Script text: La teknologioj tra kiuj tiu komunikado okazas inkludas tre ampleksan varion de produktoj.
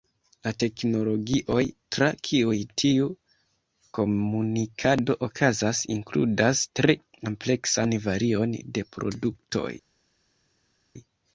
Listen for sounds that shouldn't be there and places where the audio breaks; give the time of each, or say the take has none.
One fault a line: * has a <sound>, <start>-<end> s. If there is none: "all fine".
all fine